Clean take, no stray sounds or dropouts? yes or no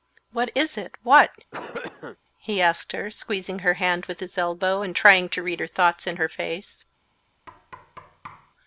no